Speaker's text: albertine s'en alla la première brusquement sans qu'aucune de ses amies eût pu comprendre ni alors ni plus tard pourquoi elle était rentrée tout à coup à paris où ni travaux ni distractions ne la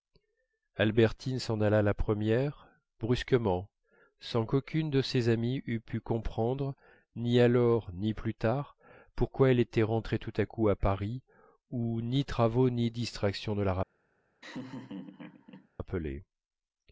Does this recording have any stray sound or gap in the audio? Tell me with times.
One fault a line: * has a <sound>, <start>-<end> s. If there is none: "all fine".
* has a laugh, 14.4-15.7 s